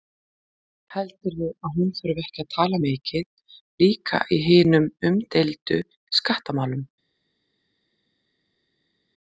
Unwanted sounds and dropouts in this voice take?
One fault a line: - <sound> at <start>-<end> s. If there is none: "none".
none